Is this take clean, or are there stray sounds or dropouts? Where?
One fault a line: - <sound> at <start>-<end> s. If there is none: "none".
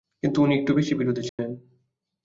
- dropout at 1.3-1.4 s